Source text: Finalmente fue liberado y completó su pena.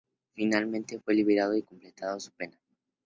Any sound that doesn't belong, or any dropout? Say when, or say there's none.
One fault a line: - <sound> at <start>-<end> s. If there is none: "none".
none